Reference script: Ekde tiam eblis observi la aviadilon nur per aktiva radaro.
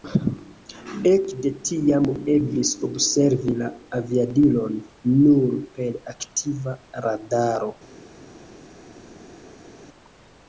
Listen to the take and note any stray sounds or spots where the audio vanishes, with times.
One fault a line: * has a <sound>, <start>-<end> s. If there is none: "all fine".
all fine